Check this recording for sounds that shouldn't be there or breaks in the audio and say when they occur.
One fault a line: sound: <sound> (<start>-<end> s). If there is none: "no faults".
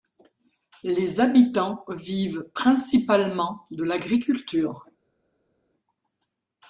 no faults